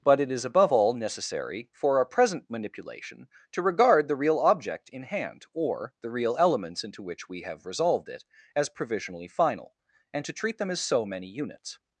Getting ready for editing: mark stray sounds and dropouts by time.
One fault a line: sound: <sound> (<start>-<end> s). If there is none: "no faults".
no faults